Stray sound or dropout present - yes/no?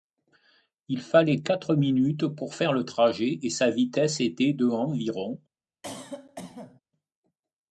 yes